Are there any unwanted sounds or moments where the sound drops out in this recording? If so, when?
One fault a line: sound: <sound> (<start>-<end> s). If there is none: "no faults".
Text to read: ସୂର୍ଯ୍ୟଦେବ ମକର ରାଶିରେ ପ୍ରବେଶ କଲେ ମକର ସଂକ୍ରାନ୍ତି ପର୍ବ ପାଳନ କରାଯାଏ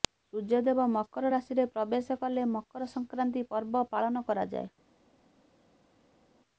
no faults